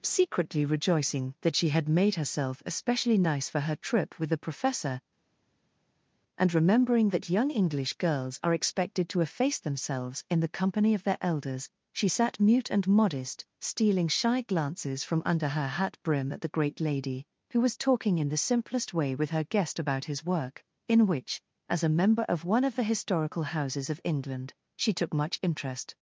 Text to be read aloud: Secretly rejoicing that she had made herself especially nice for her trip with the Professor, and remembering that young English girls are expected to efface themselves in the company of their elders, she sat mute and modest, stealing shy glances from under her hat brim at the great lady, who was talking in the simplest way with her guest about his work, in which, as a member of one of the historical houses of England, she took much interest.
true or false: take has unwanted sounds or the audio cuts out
false